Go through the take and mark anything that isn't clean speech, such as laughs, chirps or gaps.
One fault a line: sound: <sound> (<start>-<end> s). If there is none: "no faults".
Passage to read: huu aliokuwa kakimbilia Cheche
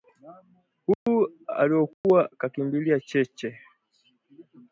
sound: dropout (0.9-1.1 s)
sound: dropout (1.9-2.0 s)